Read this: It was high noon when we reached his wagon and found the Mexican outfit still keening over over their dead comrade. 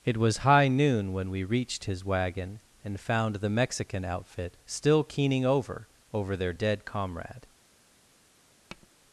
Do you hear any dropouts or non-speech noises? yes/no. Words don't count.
yes